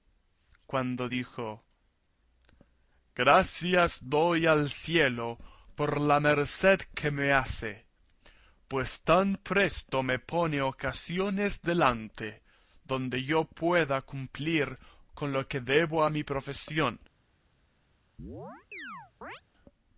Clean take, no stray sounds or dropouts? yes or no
no